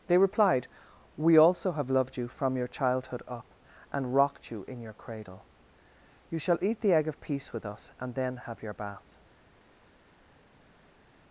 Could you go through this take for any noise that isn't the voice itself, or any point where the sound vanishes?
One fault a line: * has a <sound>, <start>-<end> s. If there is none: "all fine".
all fine